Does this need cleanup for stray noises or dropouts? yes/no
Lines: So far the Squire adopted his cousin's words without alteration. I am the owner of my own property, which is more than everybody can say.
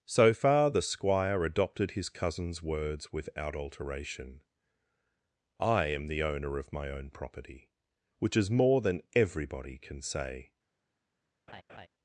yes